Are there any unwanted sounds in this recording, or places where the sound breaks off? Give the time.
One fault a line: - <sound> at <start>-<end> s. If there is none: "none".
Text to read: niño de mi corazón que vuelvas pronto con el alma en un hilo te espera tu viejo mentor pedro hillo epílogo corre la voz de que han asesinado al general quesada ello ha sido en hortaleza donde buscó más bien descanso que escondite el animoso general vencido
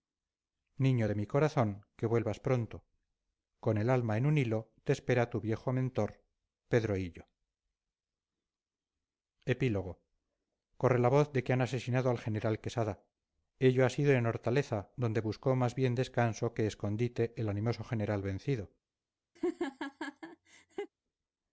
- laugh at 19.4-20.9 s